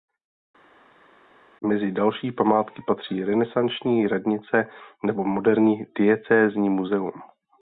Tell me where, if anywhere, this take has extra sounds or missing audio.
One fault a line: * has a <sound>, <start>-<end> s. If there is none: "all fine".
all fine